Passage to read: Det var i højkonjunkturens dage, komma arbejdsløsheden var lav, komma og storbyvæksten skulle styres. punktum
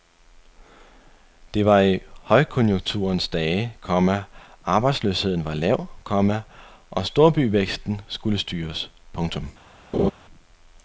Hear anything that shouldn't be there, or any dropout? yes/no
yes